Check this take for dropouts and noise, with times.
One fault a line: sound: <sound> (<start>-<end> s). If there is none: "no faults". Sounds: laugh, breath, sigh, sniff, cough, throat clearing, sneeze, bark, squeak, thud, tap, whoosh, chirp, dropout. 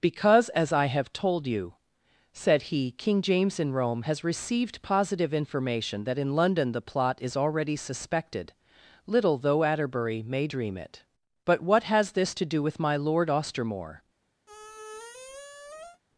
sound: squeak (14.5-16.0 s)